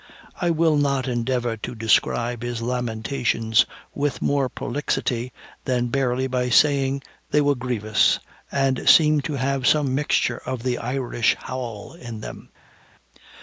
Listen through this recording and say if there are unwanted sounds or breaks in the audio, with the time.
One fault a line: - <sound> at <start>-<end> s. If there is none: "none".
none